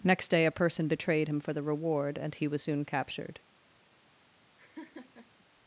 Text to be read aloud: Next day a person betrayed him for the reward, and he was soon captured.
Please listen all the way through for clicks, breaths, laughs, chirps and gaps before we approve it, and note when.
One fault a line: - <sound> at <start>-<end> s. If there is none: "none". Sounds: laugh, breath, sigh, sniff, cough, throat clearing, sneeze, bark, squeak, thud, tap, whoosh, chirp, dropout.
- laugh at 4.6-5.4 s